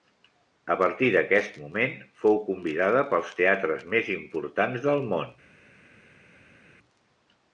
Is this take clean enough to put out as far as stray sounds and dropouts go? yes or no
yes